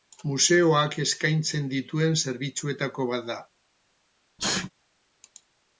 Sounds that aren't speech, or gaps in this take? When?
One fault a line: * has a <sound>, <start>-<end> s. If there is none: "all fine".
* has a sneeze, 4.4-4.7 s